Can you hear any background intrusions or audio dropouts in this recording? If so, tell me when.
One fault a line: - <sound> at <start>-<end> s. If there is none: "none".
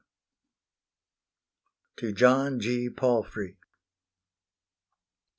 none